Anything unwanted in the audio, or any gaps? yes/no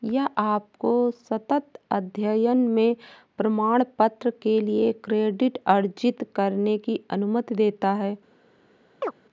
yes